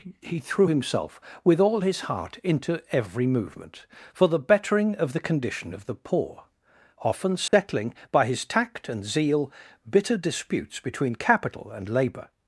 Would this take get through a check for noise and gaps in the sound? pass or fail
fail